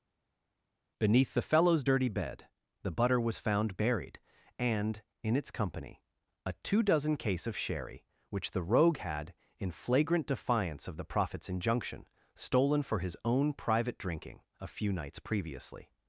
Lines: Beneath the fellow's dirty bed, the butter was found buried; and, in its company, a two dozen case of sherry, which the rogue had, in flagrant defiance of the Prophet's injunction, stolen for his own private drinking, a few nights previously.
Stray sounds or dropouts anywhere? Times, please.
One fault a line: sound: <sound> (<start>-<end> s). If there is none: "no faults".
no faults